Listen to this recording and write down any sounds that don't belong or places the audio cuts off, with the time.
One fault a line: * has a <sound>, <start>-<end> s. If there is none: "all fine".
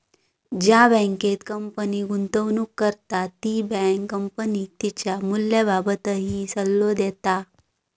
all fine